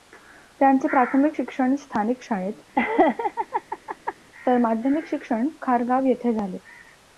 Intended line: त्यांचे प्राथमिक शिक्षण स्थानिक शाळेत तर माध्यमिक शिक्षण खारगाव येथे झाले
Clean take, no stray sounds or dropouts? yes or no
no